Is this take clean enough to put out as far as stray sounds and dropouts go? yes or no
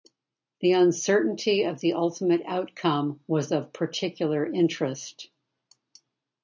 yes